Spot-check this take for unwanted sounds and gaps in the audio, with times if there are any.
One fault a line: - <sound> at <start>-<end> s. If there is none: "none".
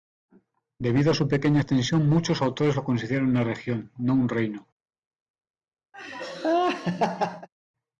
- laugh at 5.9-7.5 s